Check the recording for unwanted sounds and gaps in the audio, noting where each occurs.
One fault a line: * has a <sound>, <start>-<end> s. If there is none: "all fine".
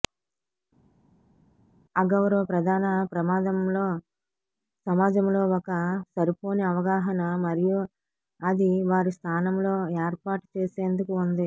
all fine